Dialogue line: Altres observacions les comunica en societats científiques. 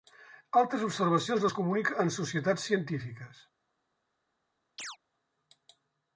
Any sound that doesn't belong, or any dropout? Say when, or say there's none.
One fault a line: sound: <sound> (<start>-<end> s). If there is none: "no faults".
sound: chirp (4.8-5.0 s)